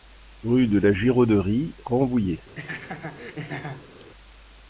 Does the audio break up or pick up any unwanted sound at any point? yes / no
yes